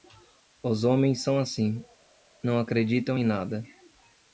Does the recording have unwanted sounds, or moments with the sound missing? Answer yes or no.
no